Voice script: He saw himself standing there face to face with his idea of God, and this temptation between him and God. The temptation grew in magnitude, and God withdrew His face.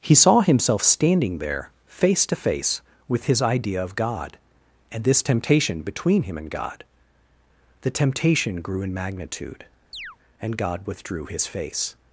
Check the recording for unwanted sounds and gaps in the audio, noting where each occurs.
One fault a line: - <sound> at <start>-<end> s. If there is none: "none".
- chirp at 9.9-10.2 s